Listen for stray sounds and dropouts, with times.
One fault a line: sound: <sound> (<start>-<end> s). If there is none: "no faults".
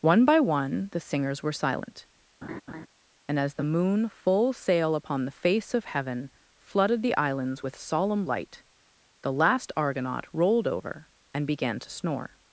sound: laugh (2.4-2.9 s)